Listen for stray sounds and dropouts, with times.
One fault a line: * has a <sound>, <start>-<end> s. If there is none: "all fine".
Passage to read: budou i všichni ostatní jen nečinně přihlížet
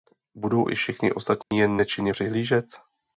* has a dropout, 1.4-1.5 s